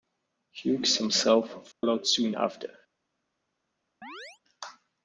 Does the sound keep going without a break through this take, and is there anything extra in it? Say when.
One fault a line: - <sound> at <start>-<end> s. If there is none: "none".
- dropout at 1.7-1.8 s
- chirp at 4.0-4.4 s